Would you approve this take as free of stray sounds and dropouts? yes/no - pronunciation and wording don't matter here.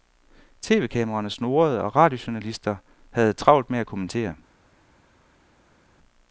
yes